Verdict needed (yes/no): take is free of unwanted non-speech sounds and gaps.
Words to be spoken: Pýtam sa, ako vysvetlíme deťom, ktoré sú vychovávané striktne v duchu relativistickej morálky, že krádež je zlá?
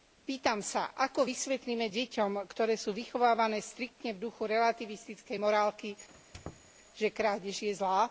no